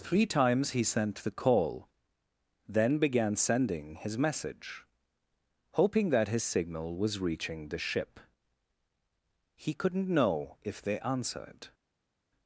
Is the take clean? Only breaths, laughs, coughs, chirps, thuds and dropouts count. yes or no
yes